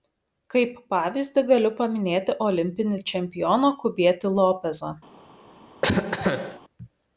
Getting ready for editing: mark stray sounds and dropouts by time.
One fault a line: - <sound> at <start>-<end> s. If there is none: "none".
- cough at 5.8-6.6 s